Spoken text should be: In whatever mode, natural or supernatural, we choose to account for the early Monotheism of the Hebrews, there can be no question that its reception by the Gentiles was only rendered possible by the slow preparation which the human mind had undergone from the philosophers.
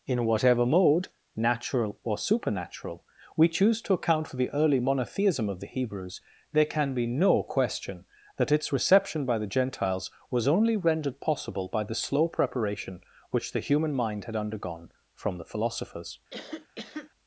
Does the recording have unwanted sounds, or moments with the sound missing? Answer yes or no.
yes